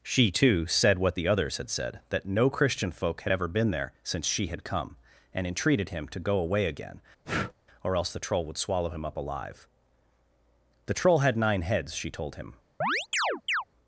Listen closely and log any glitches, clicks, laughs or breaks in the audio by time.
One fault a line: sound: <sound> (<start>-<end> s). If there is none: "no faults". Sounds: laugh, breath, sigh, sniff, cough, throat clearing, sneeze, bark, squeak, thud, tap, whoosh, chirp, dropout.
sound: breath (7.2-7.5 s)
sound: chirp (12.8-13.6 s)